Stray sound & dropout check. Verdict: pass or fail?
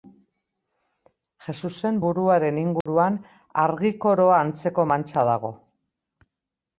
fail